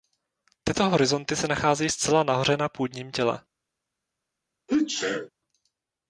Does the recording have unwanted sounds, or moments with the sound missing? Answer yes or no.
yes